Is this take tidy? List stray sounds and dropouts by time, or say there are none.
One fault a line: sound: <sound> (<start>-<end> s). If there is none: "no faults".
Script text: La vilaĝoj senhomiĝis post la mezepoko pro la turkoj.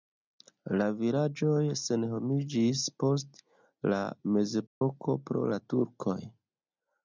sound: dropout (4.7-4.8 s)